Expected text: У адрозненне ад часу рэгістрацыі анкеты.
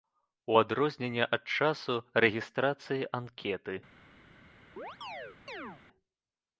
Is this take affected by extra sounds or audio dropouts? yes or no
yes